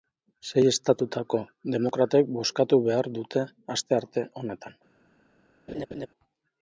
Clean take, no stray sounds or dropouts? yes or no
no